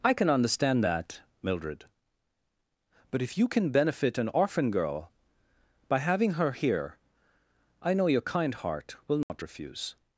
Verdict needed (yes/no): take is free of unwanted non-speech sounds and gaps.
no